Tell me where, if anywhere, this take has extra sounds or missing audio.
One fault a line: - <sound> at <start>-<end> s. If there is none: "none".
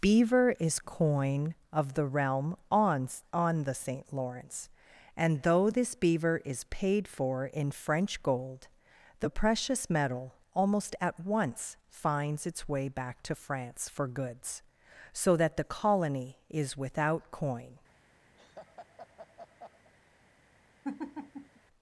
- laugh at 18.4-19.9 s
- laugh at 20.8-21.6 s